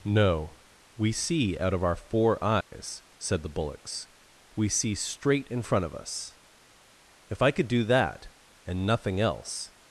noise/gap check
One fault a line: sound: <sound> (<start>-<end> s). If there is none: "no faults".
sound: dropout (2.6-2.7 s)